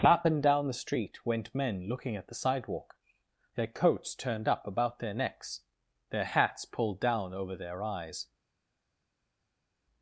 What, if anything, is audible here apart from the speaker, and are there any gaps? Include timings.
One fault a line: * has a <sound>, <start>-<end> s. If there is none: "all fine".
all fine